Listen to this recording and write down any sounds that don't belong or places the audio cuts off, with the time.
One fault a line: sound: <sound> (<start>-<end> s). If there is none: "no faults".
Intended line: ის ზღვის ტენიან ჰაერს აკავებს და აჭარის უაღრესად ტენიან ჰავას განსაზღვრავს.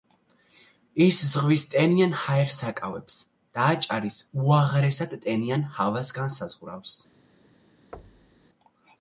sound: thud (7.9-8.5 s)